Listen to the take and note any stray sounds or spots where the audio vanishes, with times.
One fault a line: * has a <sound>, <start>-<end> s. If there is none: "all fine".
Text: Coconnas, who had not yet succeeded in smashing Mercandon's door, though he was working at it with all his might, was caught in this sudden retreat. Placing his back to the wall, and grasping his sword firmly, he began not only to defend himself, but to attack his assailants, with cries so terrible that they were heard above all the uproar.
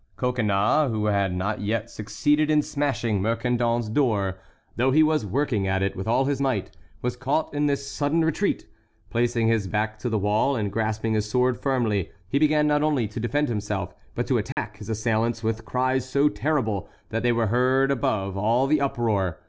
* has a dropout, 14.5-14.6 s